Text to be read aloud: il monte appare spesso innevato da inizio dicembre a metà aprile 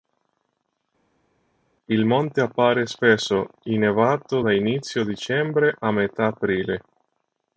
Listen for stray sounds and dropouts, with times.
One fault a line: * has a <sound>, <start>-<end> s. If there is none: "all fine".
all fine